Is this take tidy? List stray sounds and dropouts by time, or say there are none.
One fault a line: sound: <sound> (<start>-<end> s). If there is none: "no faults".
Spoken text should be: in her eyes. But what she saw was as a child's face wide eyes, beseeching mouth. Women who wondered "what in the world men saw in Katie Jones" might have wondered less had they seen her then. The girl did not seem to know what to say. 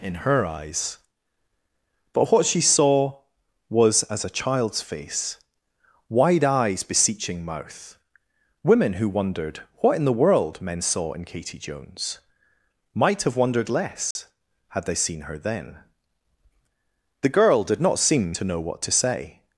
sound: dropout (14.1-14.2 s)